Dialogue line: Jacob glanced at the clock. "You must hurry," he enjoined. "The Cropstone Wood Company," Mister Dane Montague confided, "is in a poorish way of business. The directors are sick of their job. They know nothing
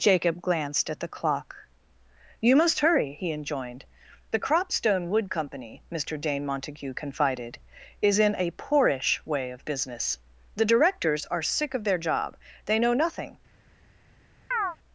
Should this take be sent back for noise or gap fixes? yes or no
yes